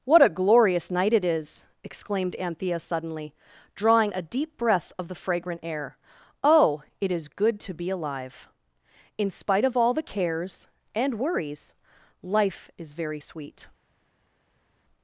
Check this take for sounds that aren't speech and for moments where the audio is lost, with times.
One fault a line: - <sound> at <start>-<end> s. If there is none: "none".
none